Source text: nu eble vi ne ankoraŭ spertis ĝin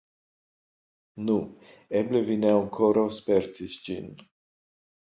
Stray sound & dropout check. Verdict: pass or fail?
pass